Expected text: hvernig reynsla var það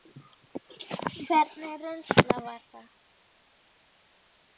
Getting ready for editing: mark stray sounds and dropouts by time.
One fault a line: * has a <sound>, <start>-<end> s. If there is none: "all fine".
all fine